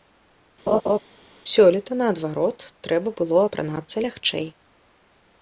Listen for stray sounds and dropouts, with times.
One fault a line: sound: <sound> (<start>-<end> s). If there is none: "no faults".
sound: laugh (0.7-1.0 s)